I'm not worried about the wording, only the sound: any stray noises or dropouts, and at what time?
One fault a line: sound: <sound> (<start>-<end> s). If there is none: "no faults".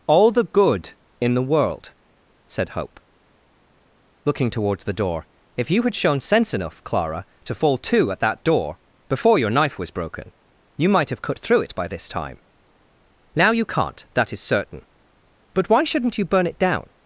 no faults